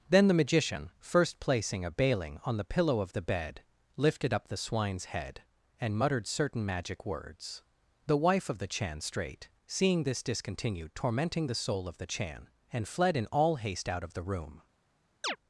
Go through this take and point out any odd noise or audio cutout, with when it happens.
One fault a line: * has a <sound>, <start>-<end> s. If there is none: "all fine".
* has a chirp, 15.2-15.4 s